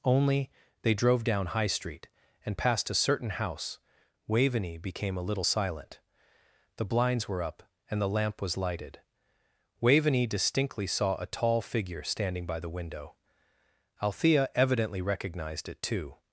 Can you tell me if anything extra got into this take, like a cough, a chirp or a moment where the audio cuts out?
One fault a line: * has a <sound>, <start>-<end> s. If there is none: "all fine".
all fine